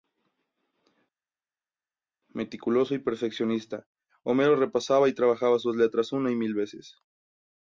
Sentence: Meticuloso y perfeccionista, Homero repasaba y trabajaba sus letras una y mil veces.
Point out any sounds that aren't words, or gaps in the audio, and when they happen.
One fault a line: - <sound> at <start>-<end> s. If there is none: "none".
none